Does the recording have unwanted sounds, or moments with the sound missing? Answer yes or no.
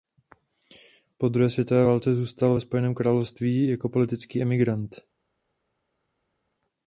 no